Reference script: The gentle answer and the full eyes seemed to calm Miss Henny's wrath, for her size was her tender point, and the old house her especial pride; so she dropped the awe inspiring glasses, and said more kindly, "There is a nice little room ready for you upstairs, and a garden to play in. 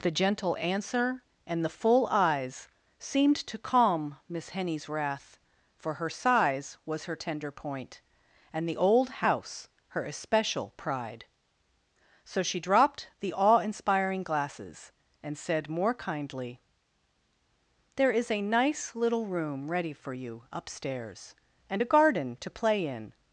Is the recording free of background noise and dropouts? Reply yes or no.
yes